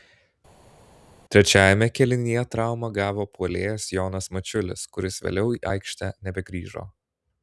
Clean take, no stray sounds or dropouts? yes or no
yes